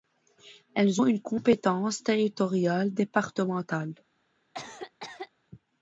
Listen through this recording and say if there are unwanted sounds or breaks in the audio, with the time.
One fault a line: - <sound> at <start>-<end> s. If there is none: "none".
- cough at 4.5-5.3 s